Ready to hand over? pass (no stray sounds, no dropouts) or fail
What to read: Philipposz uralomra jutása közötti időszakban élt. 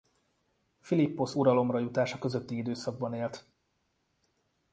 pass